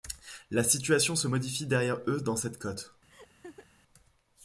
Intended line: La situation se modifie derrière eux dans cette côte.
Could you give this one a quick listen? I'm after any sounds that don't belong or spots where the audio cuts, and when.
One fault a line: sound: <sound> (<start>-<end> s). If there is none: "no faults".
sound: laugh (3.1-3.7 s)